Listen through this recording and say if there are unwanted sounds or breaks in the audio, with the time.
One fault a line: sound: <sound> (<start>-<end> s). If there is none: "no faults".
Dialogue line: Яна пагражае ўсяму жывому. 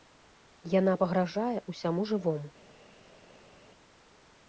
no faults